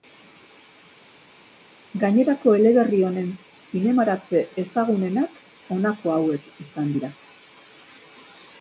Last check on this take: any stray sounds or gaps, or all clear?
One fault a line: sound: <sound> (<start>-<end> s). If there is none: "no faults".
no faults